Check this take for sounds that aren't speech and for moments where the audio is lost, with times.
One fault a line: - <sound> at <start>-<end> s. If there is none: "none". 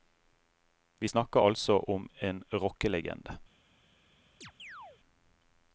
- chirp at 4.4-5.0 s